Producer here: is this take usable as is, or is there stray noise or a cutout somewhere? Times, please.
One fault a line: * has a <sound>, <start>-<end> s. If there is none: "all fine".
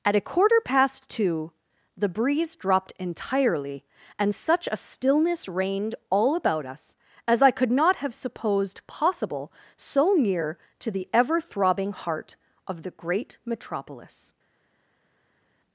all fine